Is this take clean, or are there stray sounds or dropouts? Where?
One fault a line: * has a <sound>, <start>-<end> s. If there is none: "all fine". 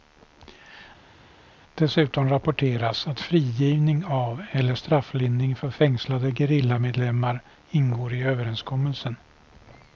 all fine